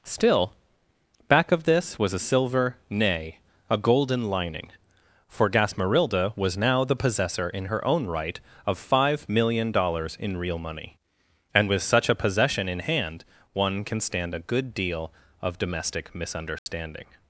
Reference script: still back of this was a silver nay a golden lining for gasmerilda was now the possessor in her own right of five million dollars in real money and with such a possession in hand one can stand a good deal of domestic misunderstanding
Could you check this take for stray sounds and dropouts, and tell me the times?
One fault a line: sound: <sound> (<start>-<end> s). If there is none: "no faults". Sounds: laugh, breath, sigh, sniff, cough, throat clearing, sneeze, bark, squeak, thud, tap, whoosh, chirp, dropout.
sound: dropout (16.6-16.7 s)